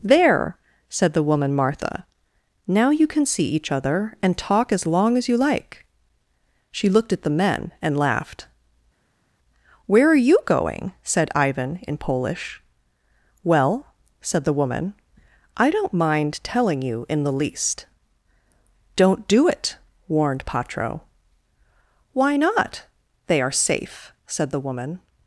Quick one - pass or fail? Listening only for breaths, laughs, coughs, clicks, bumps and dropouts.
pass